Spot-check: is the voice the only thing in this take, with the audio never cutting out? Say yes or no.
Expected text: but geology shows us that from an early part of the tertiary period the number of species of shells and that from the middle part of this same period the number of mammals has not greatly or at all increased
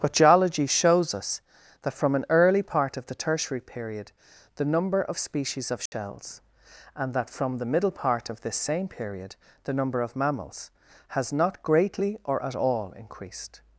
no